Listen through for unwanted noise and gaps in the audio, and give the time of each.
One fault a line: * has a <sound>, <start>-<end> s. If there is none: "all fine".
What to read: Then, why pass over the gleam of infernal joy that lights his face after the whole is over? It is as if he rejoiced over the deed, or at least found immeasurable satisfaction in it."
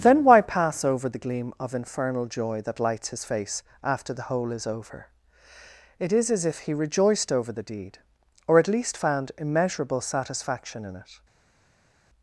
all fine